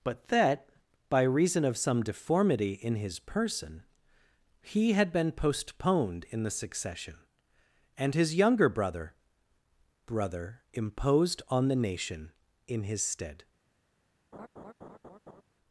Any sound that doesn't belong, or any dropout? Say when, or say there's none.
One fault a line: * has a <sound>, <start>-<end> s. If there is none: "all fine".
* has a laugh, 14.3-15.4 s